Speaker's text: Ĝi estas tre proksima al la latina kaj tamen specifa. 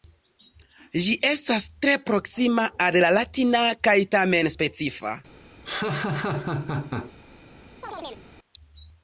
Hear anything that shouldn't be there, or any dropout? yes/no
yes